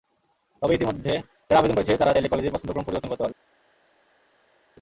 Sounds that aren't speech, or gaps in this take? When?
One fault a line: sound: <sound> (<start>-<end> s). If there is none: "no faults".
no faults